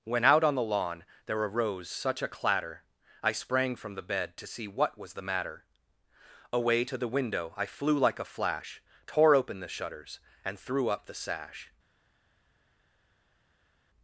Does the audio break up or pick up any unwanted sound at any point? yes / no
no